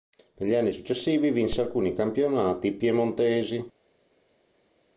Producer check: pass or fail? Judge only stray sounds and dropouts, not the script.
pass